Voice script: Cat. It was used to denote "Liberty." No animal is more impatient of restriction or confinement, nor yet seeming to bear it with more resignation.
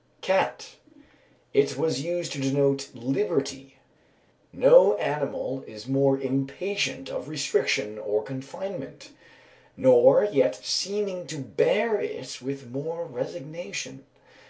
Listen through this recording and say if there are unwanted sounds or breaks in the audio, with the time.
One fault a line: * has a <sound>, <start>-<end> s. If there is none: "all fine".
all fine